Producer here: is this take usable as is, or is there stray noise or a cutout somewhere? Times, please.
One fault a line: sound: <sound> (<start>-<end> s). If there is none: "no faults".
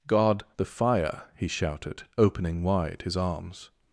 no faults